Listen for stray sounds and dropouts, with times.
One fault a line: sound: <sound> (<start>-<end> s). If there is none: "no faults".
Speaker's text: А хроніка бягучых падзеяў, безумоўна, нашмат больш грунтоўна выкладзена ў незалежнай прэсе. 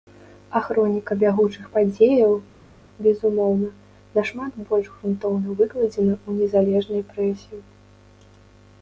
no faults